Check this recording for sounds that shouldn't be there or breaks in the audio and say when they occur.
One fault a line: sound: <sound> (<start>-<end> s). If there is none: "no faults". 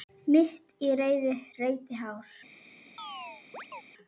sound: chirp (3.0-3.8 s)